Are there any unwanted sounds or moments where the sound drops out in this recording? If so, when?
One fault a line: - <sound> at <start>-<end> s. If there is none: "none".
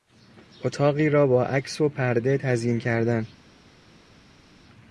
none